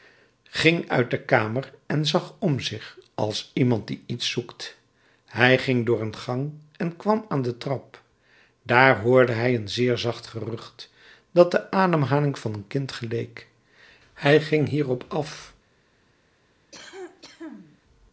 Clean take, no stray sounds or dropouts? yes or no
no